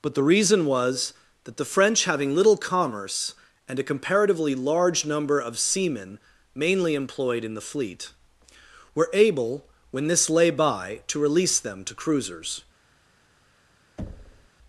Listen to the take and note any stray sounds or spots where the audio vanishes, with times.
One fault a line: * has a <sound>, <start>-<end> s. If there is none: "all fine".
* has a thud, 14.0-14.5 s